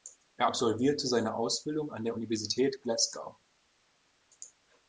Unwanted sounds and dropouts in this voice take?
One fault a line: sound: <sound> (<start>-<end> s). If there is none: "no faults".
no faults